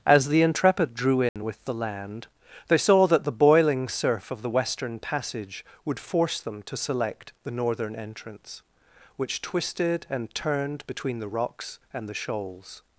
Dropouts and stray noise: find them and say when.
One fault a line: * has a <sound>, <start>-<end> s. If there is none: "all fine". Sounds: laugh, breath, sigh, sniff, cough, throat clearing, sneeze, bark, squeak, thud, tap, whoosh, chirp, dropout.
* has a dropout, 1.3-1.4 s